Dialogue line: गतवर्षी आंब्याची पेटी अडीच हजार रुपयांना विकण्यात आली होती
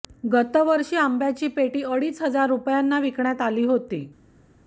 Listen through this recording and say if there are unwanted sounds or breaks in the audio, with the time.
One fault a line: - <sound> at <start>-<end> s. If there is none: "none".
none